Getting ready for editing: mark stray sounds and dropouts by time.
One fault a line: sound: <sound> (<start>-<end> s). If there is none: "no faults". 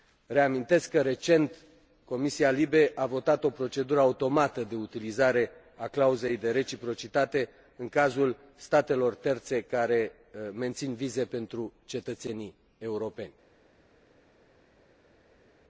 no faults